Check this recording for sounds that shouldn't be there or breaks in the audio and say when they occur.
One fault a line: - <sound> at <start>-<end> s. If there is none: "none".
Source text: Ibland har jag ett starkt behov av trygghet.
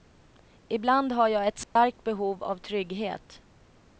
- dropout at 1.6-1.8 s